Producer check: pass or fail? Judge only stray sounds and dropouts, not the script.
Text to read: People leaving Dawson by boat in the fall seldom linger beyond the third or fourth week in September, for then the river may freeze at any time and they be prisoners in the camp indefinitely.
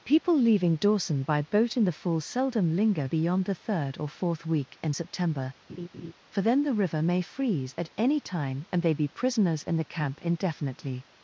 fail